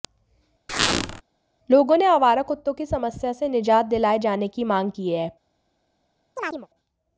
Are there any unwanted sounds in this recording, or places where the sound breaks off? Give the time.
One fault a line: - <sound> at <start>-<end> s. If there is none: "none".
- squeak at 0.7-1.2 s
- chirp at 6.4-6.7 s